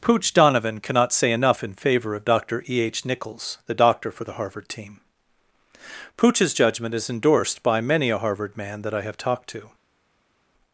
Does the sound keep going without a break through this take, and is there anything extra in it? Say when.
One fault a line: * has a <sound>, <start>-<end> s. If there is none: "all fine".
all fine